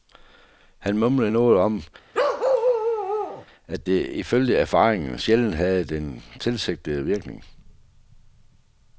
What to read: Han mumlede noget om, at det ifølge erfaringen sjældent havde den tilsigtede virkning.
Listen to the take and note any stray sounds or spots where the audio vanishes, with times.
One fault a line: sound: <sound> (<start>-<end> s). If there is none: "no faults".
sound: bark (2.1-3.5 s)